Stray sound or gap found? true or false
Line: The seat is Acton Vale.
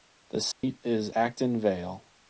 true